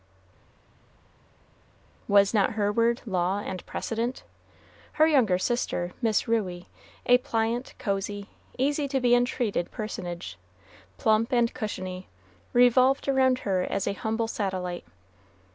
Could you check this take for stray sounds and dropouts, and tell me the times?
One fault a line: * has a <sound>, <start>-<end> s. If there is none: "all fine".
all fine